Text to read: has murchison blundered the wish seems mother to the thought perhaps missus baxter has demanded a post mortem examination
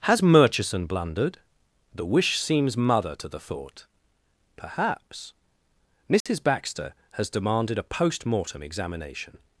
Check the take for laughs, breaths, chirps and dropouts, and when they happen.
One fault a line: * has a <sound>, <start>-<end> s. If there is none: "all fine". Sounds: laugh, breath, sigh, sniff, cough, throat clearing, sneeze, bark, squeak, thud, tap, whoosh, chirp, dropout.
* has a dropout, 6.2-6.3 s